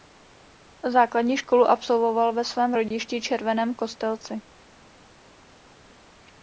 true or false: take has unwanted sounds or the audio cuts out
false